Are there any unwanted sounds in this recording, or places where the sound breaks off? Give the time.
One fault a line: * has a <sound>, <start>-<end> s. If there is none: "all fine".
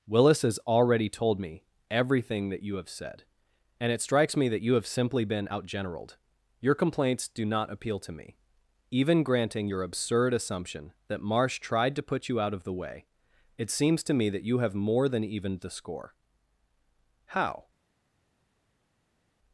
all fine